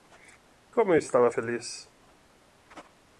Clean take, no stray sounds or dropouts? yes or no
yes